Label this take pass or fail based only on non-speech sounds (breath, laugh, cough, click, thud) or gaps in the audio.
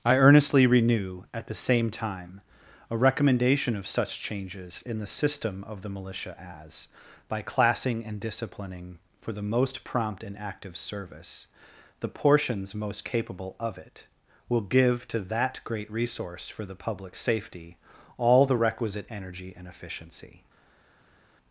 pass